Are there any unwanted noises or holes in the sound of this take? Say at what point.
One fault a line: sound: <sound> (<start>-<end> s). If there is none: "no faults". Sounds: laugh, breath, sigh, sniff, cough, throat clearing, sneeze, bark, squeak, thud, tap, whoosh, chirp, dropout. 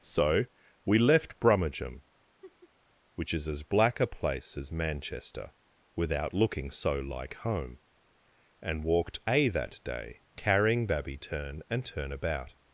sound: laugh (2.4-2.7 s)